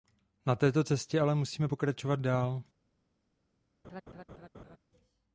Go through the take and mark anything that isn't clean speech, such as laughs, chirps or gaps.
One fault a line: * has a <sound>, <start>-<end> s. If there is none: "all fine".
* has a laugh, 3.8-4.8 s